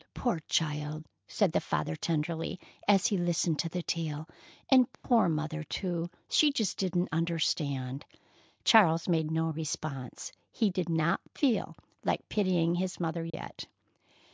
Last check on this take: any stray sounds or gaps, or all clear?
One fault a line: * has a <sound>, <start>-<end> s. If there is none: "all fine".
* has a dropout, 4.9-5.0 s
* has a dropout, 13.3-13.3 s